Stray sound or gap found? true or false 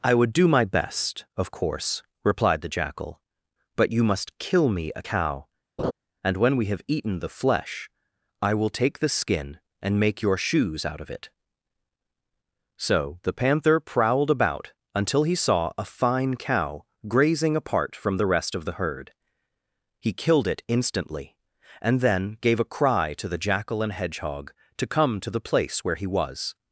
true